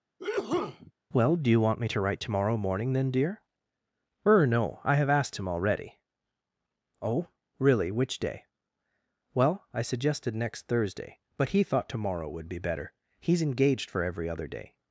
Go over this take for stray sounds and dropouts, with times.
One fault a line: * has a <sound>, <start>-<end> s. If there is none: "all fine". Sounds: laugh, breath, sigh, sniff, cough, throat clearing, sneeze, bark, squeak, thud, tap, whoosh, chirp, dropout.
* has a sneeze, 0.2-0.9 s